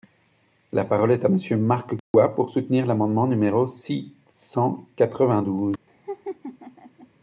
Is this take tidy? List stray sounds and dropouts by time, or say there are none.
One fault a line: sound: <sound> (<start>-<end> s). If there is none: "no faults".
sound: dropout (2.0-2.1 s)
sound: laugh (5.9-7.1 s)